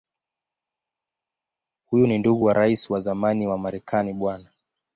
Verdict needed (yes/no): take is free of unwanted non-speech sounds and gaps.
yes